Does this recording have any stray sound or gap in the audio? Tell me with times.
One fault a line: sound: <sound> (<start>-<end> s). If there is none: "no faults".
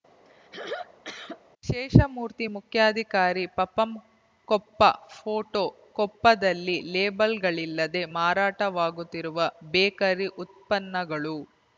sound: throat clearing (0.3-1.4 s)